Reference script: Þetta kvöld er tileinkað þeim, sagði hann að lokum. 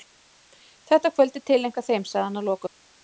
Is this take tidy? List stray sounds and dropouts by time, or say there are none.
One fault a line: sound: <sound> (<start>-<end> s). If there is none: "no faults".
no faults